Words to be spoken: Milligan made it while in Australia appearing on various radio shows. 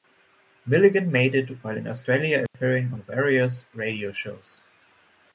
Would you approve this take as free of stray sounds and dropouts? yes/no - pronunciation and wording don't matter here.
no